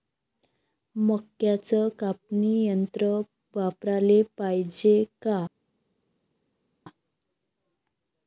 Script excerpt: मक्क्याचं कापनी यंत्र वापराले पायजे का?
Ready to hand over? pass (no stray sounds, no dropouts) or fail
pass